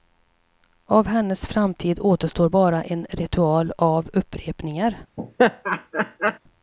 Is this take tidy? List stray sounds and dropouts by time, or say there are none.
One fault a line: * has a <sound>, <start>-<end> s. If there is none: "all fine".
* has a laugh, 5.2-6.4 s